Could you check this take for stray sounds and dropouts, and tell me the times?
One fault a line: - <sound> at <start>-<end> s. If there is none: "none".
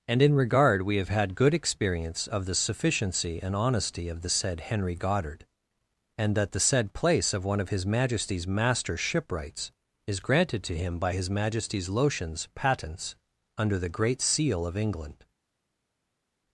none